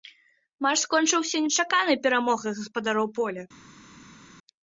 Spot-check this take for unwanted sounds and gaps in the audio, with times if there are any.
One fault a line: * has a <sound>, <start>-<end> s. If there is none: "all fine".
all fine